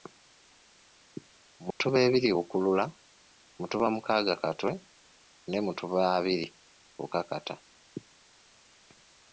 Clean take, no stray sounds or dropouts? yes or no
no